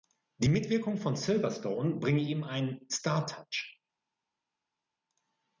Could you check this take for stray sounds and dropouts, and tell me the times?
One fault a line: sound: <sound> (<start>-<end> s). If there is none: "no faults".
no faults